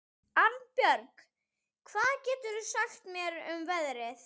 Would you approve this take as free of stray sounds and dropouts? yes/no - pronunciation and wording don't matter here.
yes